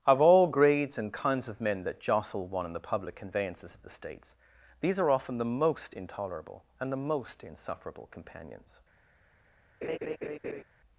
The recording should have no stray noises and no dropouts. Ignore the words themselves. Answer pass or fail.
fail